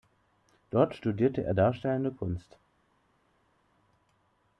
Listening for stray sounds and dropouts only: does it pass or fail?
pass